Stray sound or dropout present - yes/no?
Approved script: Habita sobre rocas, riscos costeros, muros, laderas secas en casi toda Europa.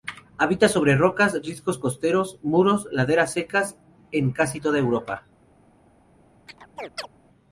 yes